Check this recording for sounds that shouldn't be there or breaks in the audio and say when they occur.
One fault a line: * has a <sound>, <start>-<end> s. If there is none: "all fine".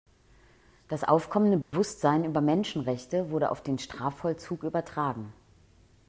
* has a dropout, 1.6-1.7 s